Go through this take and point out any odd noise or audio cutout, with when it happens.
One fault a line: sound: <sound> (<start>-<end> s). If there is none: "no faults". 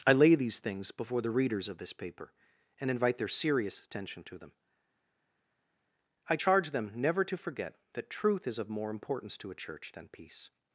no faults